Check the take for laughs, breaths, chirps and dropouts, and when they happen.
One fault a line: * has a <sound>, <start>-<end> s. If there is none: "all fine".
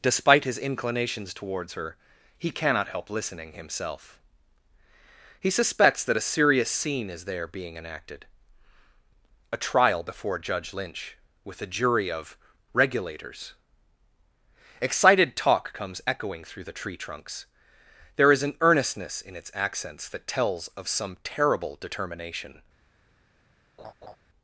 * has a laugh, 23.8-24.2 s